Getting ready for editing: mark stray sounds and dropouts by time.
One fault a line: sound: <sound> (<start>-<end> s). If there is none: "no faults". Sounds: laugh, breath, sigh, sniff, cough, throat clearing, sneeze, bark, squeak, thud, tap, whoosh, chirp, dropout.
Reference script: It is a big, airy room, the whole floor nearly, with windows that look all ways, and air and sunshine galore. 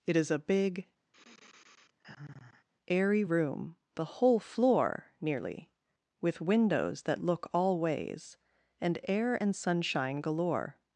sound: sigh (1.1-2.7 s)